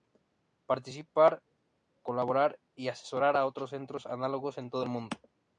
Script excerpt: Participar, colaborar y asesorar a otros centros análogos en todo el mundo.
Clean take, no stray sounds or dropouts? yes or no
yes